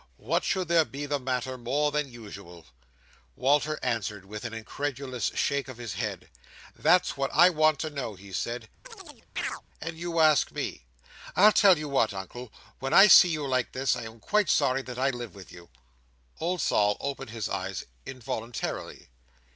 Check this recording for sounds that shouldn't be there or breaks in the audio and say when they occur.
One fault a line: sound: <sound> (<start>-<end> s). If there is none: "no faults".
sound: chirp (8.8-9.6 s)